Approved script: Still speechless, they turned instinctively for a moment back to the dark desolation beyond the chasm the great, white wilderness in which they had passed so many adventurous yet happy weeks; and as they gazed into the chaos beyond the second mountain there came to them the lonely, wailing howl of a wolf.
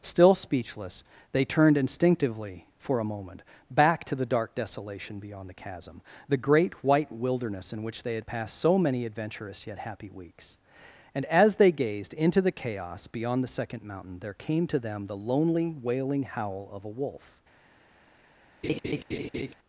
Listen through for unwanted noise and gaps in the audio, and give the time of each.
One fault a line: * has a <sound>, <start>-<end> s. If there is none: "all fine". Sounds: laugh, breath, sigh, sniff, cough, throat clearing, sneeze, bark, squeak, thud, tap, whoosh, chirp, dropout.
* has a laugh, 18.6-19.5 s